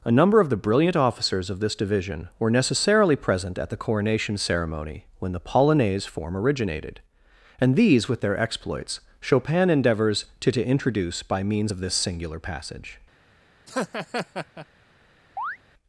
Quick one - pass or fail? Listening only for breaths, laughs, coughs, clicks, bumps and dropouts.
fail